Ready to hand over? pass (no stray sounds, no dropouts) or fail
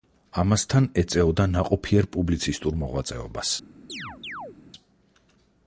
fail